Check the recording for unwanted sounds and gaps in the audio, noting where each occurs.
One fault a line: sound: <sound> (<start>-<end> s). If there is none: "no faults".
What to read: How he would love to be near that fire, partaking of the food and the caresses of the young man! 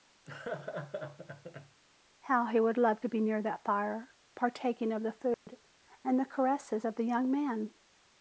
sound: laugh (0.3-1.8 s)
sound: dropout (5.3-5.5 s)